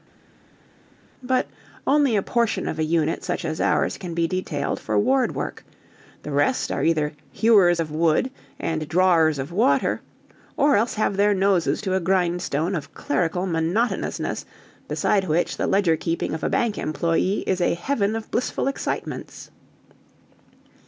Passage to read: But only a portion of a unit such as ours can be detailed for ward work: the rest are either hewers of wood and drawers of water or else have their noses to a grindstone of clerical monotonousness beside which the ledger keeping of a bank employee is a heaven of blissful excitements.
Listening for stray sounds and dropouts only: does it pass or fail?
pass